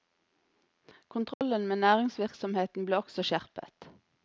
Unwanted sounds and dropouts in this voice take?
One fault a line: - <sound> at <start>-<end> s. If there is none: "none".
- dropout at 1.3-1.4 s